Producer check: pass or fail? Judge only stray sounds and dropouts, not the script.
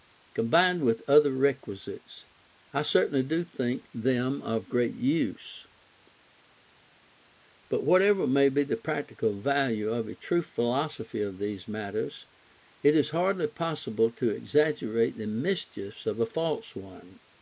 pass